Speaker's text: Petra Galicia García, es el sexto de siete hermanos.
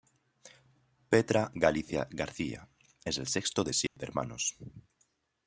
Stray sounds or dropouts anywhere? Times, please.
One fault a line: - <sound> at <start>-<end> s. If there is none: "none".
- dropout at 3.9-4.0 s